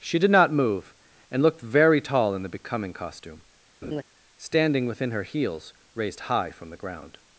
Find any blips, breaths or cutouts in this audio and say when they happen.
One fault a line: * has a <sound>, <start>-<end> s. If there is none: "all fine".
* has a laugh, 3.8-4.0 s